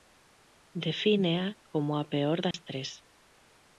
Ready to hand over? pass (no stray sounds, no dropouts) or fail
fail